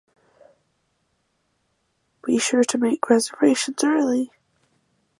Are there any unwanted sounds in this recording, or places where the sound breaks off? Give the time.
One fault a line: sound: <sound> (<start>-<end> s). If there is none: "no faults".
no faults